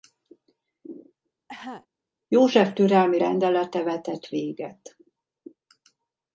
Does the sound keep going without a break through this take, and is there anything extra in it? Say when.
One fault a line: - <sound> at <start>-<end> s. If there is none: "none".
- cough at 1.5-1.9 s